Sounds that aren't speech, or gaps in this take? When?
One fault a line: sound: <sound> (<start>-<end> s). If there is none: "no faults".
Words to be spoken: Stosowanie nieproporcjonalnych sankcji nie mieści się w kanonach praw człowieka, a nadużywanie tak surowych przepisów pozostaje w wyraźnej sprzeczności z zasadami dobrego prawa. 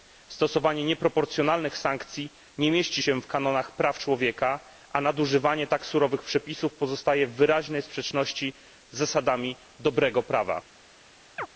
sound: chirp (11.4-11.5 s)